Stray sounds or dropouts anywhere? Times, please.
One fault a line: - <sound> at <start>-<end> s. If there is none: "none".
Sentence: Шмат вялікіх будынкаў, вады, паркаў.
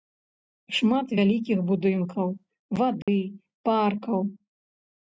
- dropout at 3.0-3.1 s